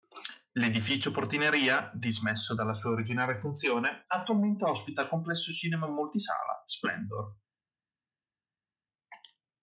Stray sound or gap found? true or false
false